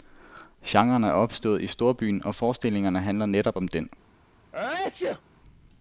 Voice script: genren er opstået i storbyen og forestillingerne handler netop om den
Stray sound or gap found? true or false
true